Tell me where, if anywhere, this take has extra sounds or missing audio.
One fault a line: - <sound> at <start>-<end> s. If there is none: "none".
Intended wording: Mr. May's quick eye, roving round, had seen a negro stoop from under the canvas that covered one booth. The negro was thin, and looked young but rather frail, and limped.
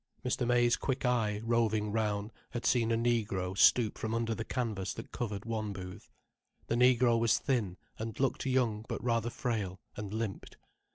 none